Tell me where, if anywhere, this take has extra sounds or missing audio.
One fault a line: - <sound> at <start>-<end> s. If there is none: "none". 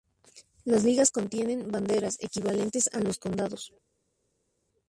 none